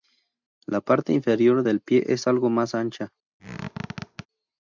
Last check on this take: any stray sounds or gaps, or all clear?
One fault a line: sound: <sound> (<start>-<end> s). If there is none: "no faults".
sound: squeak (3.4-4.3 s)